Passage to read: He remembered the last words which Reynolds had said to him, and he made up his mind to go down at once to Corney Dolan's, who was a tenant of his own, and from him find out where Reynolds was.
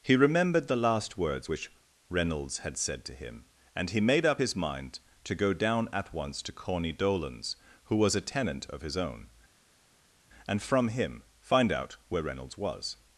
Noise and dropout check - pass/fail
pass